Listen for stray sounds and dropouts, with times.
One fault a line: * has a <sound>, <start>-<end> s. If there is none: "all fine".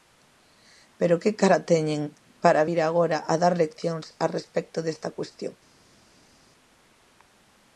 all fine